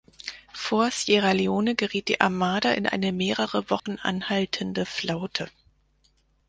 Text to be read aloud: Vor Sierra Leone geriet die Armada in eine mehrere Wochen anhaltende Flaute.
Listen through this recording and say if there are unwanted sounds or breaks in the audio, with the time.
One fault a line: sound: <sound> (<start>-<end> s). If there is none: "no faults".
sound: dropout (3.8-3.9 s)